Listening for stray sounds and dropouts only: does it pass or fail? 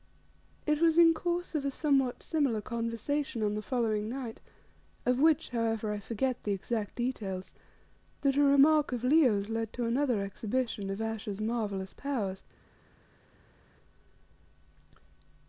pass